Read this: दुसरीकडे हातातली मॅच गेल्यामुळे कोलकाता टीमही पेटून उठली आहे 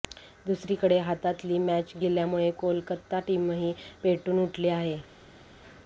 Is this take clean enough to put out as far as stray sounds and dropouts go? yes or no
yes